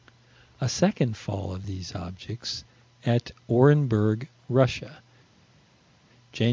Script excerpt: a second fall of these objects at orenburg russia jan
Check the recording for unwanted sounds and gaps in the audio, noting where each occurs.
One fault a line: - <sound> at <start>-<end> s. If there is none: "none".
none